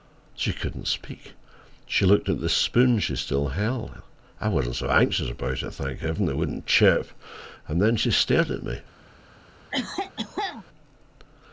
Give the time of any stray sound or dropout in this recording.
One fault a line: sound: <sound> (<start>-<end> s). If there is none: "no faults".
sound: cough (9.7-10.6 s)